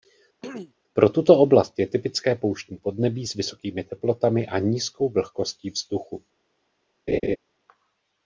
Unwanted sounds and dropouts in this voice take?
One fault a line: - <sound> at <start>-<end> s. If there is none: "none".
- throat clearing at 0.4-0.7 s
- laugh at 7.1-7.4 s